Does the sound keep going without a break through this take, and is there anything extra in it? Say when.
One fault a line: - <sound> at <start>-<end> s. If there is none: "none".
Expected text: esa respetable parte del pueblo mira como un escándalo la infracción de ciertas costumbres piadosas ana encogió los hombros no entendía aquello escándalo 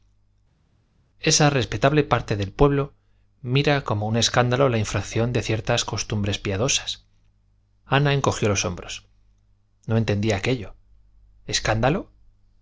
none